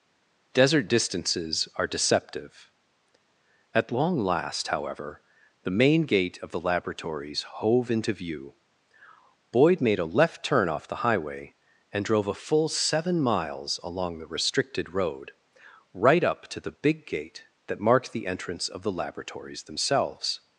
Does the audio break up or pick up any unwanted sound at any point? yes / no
no